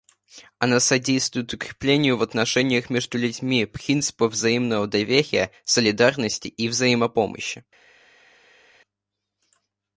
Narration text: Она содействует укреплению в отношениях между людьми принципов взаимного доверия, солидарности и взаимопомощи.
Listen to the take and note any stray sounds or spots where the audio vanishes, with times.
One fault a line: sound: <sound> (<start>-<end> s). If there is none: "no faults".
no faults